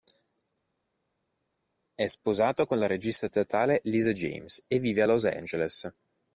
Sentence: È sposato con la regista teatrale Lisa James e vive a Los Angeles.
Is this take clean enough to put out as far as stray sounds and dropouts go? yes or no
yes